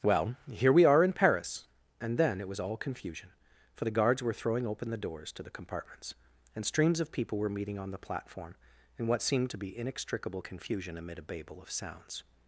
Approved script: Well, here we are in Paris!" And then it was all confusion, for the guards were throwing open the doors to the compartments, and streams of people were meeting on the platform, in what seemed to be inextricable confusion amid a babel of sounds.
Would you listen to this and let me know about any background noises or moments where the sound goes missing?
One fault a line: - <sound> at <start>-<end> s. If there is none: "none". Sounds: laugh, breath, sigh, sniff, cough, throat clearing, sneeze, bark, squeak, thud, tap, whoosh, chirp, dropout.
none